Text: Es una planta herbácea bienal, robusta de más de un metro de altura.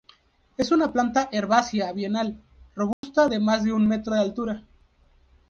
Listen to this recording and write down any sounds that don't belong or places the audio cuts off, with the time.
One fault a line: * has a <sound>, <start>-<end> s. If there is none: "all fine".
* has a dropout, 2.9-3.0 s